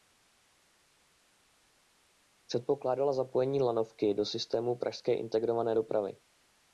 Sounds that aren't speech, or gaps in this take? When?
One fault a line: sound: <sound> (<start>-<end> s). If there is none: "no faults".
no faults